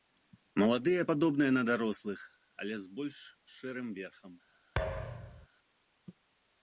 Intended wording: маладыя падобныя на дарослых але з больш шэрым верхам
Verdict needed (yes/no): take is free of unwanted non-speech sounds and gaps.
no